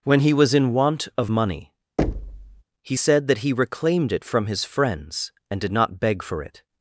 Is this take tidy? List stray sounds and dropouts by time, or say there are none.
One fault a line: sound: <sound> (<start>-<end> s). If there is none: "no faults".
sound: thud (2.0-2.6 s)